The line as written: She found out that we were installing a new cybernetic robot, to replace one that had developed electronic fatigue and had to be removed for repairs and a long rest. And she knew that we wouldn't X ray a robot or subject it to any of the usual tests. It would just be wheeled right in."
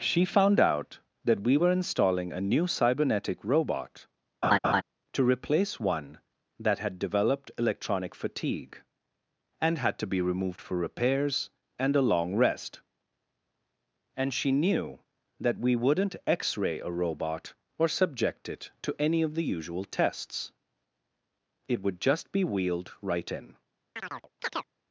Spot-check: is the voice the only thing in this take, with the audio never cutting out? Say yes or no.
no